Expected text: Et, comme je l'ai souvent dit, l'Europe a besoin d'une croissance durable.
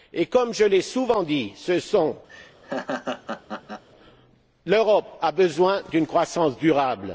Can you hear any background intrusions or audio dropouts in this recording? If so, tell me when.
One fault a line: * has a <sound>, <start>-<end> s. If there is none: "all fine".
* has a laugh, 2.3-3.8 s